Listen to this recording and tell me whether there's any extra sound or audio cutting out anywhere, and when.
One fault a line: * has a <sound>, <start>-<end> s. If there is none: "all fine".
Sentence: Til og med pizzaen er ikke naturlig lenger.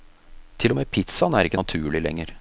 all fine